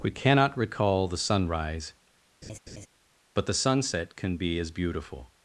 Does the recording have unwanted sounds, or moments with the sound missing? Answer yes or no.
yes